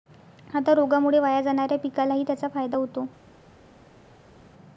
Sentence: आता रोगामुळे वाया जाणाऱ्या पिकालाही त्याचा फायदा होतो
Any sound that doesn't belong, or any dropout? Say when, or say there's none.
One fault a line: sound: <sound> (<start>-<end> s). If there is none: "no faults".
no faults